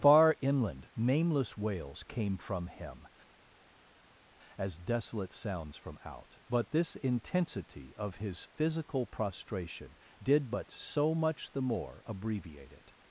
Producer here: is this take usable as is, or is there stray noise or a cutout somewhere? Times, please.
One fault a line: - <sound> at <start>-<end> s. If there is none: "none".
none